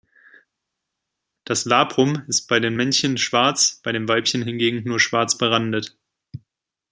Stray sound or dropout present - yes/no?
no